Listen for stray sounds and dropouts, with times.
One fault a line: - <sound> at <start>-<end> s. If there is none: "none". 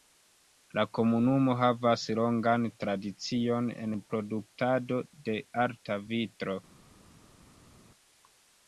none